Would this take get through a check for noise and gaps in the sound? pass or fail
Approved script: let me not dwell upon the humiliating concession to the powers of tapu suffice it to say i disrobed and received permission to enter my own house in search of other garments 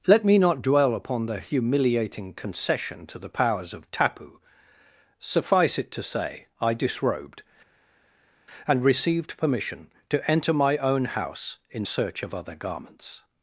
pass